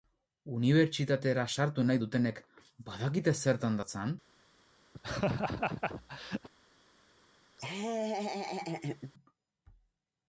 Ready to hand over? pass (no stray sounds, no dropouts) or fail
fail